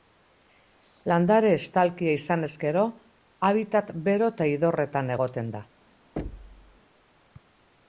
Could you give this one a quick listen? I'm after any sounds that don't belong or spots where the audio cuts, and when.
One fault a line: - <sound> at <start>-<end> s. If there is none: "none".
- thud at 6.2-6.8 s